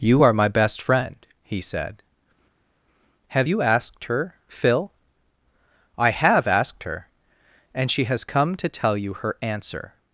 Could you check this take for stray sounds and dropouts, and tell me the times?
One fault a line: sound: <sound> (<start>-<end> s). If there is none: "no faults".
no faults